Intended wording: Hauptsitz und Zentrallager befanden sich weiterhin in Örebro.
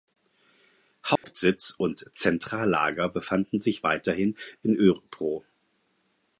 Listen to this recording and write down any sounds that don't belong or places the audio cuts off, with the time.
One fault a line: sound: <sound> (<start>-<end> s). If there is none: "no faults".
sound: dropout (1.2-1.2 s)